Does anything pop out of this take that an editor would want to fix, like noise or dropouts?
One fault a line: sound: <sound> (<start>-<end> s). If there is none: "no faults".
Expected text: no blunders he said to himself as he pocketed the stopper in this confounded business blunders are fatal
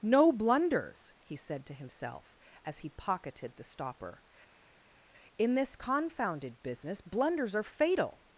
no faults